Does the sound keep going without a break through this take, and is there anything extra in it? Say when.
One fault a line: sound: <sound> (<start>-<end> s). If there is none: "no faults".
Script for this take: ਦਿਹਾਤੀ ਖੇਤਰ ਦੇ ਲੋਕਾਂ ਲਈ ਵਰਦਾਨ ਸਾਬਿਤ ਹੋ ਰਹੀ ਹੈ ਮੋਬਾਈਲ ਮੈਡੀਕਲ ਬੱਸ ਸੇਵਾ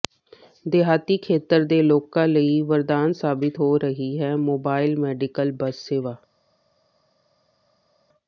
no faults